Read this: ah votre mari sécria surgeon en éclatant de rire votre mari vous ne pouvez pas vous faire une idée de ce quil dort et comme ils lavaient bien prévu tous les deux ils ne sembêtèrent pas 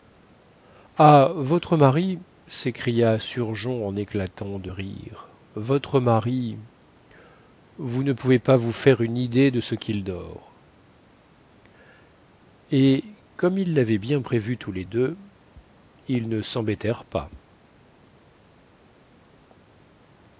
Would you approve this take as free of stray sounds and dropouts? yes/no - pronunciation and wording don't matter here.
yes